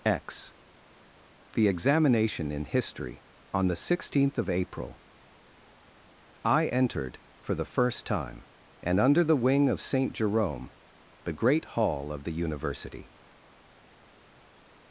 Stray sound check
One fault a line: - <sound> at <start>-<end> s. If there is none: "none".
none